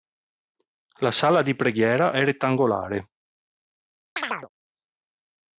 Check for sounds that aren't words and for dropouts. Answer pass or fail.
fail